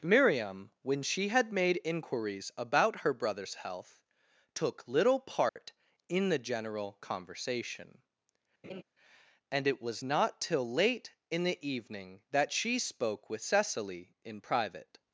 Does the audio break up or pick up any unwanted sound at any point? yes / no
yes